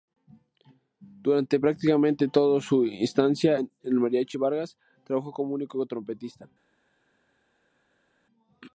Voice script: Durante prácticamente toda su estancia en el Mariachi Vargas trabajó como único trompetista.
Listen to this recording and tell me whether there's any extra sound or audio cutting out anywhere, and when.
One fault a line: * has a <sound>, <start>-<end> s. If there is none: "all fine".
all fine